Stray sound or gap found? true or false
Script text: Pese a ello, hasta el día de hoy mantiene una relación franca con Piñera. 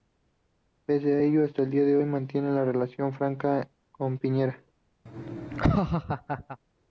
true